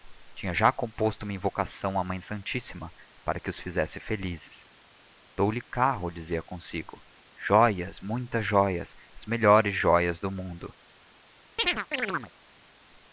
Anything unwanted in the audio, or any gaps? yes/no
yes